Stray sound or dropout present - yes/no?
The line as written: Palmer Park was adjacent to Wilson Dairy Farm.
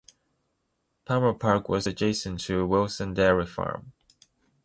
no